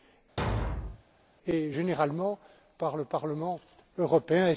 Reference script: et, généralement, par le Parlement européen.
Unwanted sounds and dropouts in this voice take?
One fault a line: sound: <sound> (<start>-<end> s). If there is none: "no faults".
sound: thud (0.4-1.0 s)